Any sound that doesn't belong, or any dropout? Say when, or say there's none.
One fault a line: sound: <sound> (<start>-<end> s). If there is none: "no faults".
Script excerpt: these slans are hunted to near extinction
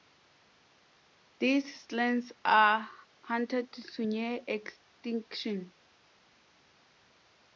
no faults